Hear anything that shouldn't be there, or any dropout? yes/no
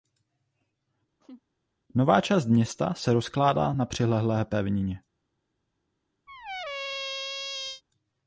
yes